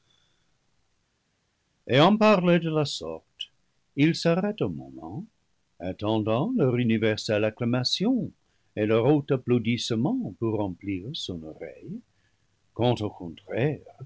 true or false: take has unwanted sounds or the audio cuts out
false